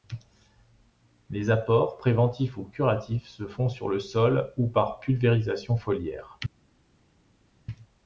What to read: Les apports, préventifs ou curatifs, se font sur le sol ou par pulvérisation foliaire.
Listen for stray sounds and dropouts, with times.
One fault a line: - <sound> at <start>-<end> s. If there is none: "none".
none